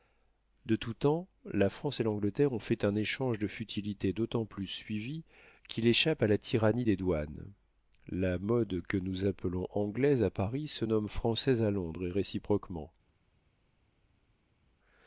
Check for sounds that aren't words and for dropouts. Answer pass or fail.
pass